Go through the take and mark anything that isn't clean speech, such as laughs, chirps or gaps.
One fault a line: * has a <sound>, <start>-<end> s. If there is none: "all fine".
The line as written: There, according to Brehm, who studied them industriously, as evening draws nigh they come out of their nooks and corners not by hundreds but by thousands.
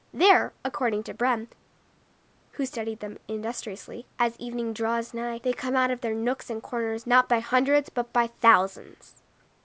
all fine